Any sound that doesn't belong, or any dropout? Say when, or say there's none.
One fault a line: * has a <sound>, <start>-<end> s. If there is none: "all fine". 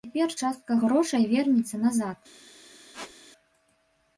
* has a squeak, 2.9-3.1 s